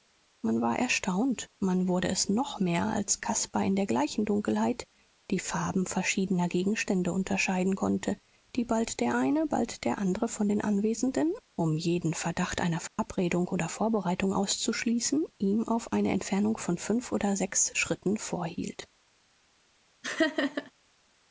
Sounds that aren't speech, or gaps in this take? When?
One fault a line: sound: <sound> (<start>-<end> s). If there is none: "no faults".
sound: dropout (12.9-13.0 s)
sound: laugh (20.0-20.7 s)